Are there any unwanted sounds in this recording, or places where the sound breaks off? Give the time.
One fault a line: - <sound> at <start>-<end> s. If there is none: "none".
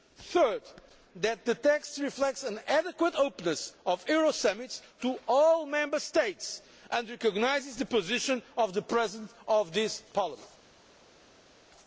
none